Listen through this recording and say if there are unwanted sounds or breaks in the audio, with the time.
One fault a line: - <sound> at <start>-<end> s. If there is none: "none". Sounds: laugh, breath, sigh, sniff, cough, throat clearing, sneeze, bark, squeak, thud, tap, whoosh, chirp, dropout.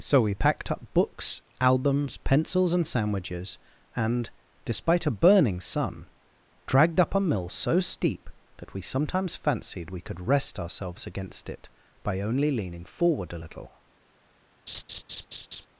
- laugh at 14.7-15.7 s